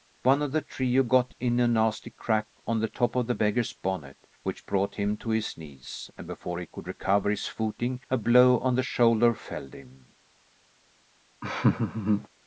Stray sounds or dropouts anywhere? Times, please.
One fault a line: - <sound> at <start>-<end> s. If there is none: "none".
- laugh at 11.4-12.3 s